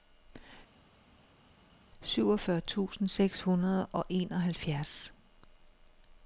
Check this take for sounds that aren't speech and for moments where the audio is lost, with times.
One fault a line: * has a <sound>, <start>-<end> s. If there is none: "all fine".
all fine